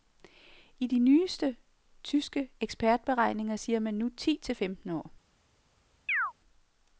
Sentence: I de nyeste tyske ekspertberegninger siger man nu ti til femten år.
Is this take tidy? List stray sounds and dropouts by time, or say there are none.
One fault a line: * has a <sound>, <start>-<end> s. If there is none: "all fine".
* has a chirp, 6.1-6.3 s